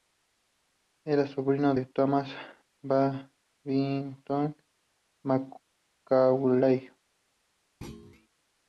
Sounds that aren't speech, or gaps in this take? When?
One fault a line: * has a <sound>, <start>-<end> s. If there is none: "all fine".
* has a thud, 7.8-8.3 s